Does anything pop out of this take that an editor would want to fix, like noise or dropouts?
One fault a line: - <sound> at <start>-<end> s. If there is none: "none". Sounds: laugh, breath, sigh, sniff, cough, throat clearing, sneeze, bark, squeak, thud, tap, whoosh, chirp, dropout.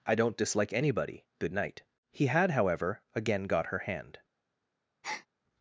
- breath at 5.0-5.3 s